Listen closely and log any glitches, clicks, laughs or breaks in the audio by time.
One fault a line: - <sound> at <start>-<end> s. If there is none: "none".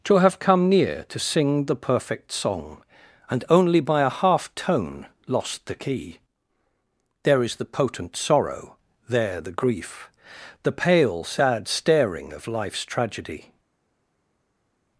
none